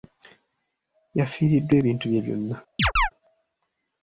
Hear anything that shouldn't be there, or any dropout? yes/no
yes